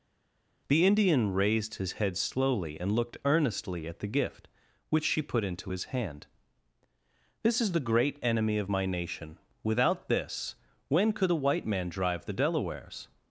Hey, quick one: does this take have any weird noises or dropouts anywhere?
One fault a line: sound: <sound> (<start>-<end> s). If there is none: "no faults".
no faults